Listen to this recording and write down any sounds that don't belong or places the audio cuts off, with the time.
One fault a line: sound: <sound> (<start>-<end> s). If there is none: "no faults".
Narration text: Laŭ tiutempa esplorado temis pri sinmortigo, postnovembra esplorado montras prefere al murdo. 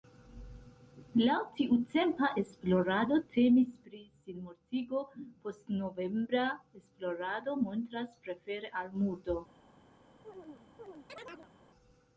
sound: chirp (10.2-11.5 s)